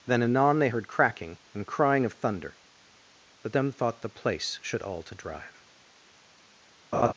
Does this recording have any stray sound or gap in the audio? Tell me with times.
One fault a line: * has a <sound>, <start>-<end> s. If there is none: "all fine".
* has a laugh, 6.9-7.1 s